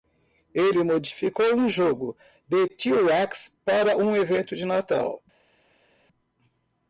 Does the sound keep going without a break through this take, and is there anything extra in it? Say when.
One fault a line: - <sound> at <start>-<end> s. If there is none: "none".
none